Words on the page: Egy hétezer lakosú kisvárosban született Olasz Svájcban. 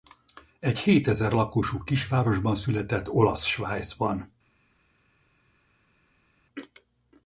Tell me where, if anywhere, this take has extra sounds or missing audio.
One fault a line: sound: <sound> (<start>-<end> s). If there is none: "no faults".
no faults